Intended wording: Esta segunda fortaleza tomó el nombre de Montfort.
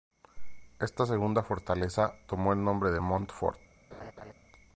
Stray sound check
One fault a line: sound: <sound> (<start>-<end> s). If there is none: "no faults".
sound: laugh (3.9-4.3 s)